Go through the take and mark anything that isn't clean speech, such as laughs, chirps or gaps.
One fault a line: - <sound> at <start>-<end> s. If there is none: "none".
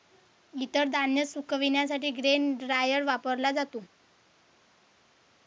none